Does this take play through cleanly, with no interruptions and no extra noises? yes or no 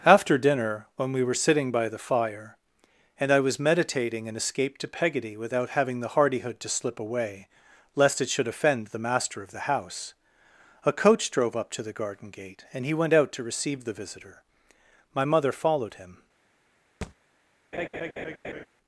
no